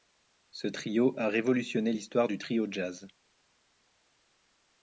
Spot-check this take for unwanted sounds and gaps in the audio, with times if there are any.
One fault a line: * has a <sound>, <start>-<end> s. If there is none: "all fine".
all fine